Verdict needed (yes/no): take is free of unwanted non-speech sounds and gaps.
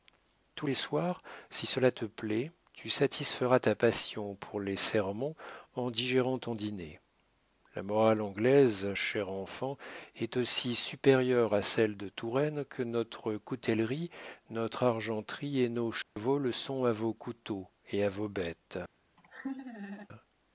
no